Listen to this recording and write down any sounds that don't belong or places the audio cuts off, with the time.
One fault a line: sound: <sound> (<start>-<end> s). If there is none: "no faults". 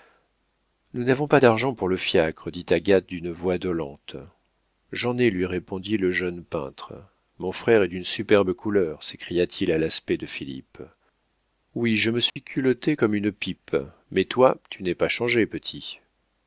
sound: dropout (12.3-12.4 s)